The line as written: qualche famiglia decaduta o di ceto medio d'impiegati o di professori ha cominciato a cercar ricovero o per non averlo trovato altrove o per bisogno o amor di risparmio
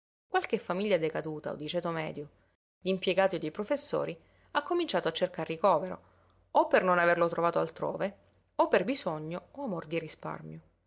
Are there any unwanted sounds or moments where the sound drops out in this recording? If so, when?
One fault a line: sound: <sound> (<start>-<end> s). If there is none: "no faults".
no faults